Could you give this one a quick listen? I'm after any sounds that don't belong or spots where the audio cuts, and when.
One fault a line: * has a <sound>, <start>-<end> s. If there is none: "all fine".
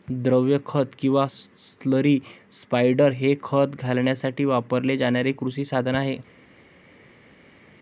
all fine